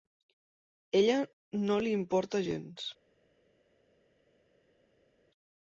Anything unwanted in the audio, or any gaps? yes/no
no